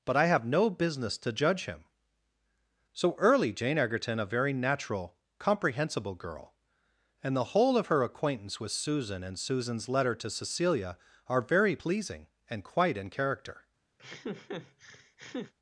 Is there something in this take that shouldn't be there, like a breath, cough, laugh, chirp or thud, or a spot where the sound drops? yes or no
yes